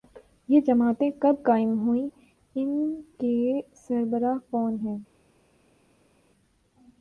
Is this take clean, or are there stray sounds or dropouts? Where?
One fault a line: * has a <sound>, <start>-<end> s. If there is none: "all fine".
all fine